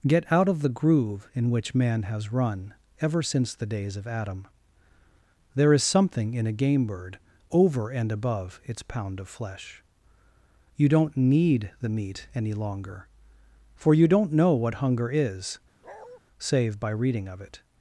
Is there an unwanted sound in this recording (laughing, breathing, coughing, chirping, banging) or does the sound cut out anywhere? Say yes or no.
yes